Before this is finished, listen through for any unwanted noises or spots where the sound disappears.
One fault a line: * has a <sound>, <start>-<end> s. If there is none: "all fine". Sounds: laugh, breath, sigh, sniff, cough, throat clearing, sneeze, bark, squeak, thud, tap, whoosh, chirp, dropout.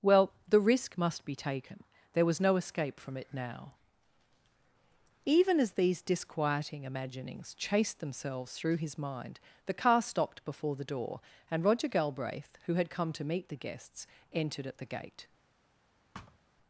* has a thud, 16.1-16.4 s